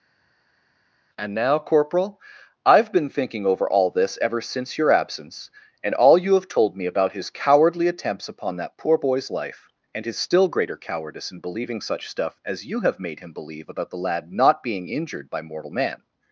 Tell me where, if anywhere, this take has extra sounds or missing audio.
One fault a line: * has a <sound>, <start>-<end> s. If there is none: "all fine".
all fine